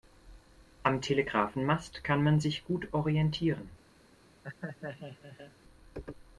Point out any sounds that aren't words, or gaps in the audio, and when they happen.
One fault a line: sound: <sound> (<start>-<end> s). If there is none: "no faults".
sound: laugh (4.4-5.5 s)